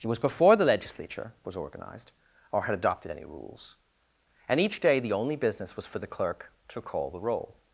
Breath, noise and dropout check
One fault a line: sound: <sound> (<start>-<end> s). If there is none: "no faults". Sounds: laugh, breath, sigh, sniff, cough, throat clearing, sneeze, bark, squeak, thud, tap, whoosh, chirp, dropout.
no faults